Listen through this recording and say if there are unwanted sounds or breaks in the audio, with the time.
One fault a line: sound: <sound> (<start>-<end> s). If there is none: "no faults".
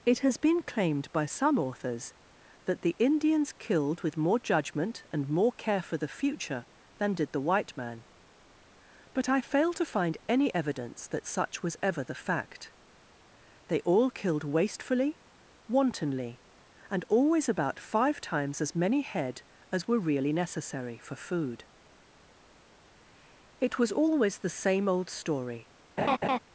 sound: laugh (26.0-26.4 s)